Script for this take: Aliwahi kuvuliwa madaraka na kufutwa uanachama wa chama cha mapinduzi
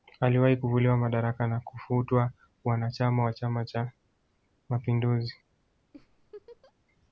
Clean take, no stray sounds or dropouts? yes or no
no